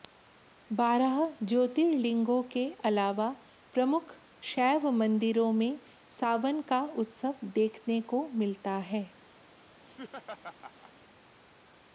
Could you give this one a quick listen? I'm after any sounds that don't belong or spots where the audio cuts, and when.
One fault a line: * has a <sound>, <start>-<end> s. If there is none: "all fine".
* has a laugh, 9.8-10.9 s